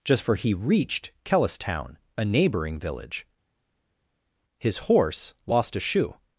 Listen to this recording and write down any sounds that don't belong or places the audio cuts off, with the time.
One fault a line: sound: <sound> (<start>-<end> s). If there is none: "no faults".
no faults